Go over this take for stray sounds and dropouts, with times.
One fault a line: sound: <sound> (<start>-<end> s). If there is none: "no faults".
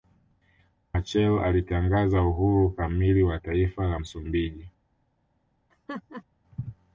sound: laugh (5.7-6.2 s)